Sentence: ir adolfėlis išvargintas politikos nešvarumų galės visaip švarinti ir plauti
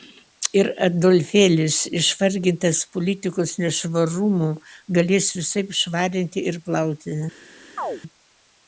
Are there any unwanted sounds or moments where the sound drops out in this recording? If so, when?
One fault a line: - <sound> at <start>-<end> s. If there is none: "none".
- chirp at 7.8-8.0 s